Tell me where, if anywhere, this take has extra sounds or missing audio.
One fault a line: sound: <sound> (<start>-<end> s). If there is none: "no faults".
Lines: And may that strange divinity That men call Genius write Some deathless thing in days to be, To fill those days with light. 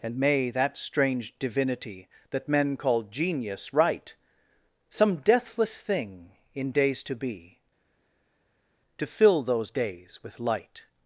no faults